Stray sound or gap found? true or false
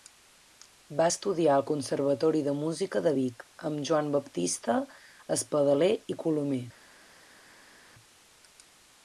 false